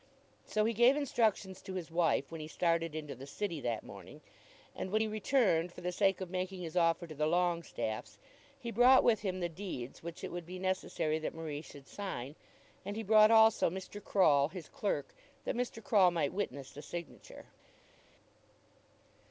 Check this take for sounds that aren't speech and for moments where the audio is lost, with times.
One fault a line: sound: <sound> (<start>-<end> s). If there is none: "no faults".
no faults